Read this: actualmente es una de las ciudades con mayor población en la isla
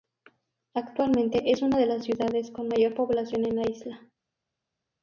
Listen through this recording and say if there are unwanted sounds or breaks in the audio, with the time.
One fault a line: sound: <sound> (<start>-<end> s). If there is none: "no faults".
no faults